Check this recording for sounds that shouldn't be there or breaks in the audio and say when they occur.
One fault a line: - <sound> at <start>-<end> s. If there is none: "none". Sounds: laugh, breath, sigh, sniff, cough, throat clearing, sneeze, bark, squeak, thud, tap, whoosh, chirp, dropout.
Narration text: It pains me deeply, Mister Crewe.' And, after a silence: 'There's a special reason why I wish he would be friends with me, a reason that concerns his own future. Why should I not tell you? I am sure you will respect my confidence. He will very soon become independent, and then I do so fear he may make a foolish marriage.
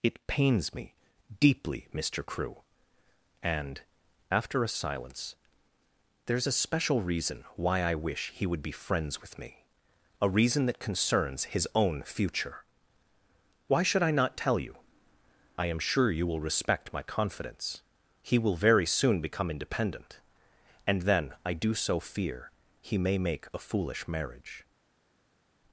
none